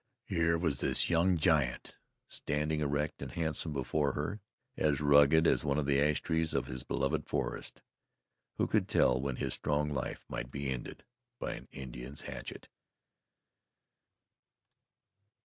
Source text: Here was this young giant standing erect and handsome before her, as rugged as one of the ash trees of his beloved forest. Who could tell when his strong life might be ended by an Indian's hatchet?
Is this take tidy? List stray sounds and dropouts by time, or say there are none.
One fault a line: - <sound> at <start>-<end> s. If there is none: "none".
none